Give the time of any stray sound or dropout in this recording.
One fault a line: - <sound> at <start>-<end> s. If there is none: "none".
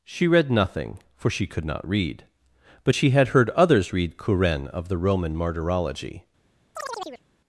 - chirp at 6.8-7.2 s